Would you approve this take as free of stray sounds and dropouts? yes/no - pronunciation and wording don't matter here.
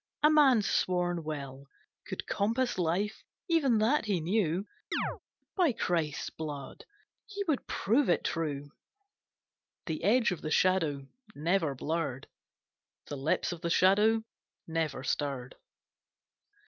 no